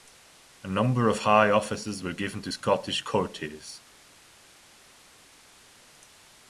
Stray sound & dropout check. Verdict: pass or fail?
pass